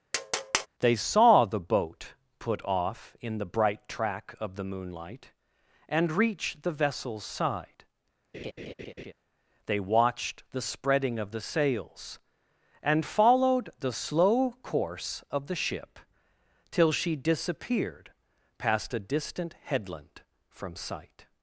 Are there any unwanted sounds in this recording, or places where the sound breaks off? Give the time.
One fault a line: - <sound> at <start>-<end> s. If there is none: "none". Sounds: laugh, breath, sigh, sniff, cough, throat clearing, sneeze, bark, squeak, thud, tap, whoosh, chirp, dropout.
- tap at 0.1-0.7 s
- laugh at 8.3-9.1 s